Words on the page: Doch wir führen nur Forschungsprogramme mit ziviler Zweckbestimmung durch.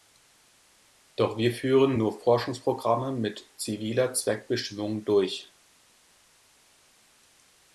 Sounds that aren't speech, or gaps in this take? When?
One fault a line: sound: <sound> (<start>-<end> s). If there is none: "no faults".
no faults